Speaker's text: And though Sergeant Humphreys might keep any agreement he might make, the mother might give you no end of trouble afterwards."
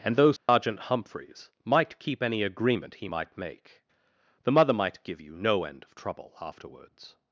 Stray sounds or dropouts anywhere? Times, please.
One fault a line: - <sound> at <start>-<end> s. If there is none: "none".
- dropout at 0.4-0.5 s